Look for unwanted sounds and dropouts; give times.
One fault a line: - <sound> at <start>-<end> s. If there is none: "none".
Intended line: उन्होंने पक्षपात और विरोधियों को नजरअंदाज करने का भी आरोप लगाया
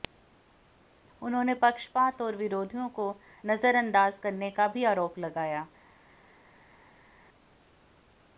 none